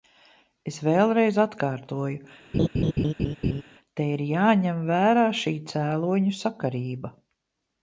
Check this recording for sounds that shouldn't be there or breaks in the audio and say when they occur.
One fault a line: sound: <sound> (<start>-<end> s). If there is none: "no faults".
sound: laugh (2.5-3.6 s)